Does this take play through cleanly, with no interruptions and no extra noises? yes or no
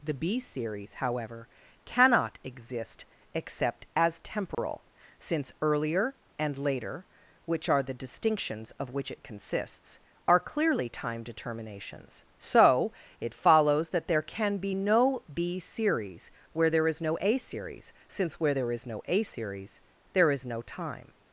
no